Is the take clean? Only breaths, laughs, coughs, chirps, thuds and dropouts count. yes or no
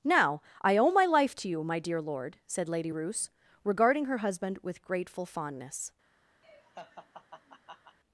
no